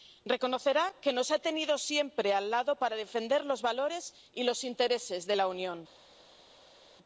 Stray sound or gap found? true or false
false